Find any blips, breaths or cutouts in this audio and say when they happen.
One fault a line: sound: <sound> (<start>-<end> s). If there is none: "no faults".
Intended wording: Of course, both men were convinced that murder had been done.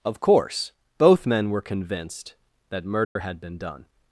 sound: dropout (3.0-3.2 s)